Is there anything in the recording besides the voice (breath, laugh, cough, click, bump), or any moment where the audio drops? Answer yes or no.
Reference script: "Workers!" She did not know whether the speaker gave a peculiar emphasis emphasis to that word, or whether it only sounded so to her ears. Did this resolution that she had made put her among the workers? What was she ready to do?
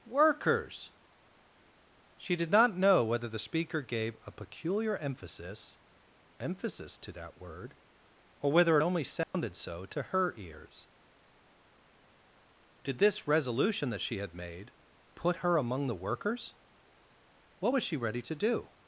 yes